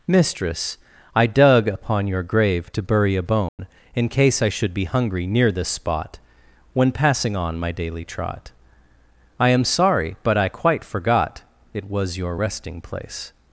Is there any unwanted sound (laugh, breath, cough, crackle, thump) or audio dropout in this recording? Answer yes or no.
yes